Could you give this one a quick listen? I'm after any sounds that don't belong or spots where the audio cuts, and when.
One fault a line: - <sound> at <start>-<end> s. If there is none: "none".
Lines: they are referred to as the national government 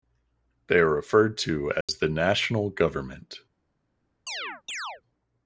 - dropout at 1.8-1.9 s
- chirp at 4.3-5.0 s